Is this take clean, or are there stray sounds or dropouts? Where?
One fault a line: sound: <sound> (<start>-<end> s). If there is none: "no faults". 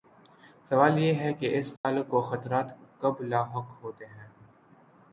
sound: dropout (1.8-1.8 s)